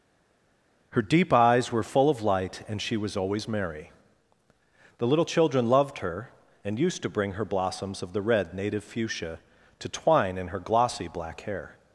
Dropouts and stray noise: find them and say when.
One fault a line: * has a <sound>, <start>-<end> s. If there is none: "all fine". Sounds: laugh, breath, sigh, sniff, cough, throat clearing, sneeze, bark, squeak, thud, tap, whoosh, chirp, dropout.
all fine